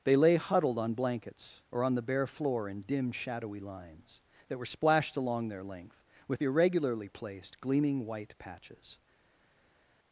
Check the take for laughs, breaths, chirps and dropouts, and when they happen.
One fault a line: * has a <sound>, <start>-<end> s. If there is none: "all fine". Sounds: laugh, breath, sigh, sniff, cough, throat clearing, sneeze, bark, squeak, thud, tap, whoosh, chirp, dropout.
all fine